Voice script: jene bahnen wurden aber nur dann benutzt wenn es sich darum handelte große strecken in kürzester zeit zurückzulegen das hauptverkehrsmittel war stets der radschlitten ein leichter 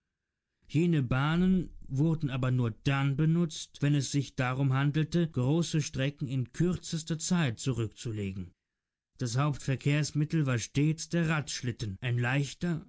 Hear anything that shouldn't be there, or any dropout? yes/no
no